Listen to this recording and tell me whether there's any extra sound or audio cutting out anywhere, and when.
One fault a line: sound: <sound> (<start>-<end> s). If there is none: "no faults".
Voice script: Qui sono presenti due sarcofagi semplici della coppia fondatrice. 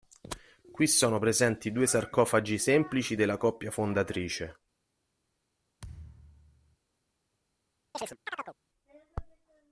sound: thud (5.8-6.8 s)
sound: chirp (7.9-8.6 s)